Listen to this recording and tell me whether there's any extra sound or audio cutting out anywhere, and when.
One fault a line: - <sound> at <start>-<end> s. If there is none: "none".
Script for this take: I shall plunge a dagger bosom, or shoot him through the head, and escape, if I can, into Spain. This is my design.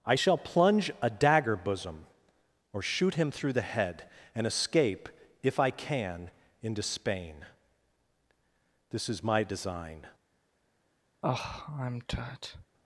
- sigh at 11.2-12.7 s